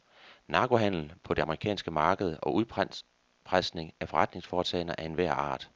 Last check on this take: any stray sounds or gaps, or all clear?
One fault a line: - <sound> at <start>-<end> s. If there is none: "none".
none